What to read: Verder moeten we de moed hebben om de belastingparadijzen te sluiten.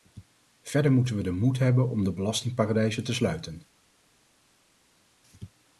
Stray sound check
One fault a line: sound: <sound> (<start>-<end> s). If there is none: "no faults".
no faults